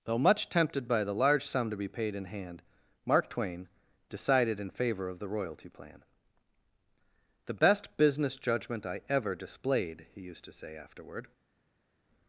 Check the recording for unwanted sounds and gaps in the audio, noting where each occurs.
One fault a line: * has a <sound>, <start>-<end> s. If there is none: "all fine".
all fine